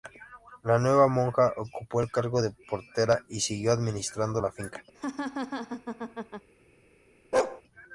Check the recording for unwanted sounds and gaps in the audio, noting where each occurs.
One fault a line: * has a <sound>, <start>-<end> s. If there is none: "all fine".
* has a laugh, 4.9-6.5 s
* has a bark, 7.3-7.6 s